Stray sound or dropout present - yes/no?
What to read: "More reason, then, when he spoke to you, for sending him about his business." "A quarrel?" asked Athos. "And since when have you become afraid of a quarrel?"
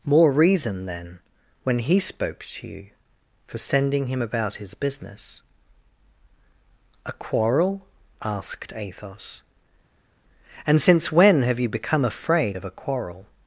no